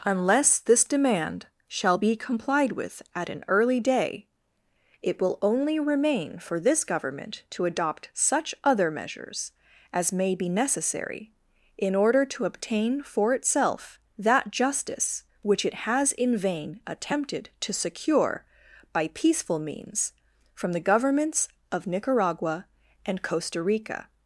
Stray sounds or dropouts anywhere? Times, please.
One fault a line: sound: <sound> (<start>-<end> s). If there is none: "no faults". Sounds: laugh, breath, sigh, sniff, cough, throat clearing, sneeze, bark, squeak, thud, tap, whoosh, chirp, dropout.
no faults